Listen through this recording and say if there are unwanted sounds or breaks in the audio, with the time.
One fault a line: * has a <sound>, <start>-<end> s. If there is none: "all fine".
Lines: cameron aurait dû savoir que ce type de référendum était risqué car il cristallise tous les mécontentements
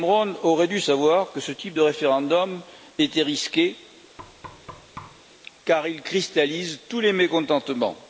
* has a thud, 4.2-5.3 s